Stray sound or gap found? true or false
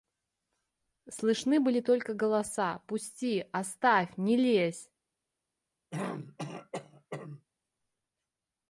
true